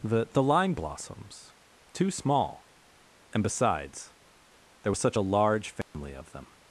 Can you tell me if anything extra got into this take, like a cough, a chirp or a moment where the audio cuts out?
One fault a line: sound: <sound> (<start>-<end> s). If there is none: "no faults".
sound: dropout (5.8-5.9 s)